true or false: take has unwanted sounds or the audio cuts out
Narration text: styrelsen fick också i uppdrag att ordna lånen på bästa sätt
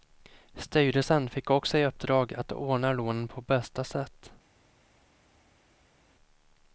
false